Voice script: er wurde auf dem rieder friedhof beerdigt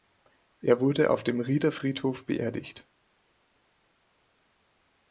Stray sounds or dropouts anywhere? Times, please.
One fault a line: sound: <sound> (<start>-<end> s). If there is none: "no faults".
no faults